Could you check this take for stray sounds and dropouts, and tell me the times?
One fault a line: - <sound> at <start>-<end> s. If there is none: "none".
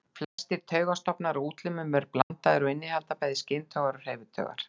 - dropout at 0.2-0.4 s
- dropout at 2.2-2.3 s